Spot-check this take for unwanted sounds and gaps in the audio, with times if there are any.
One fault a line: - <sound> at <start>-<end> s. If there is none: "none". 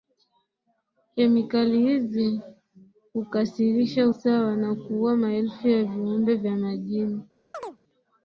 - chirp at 7.5-7.8 s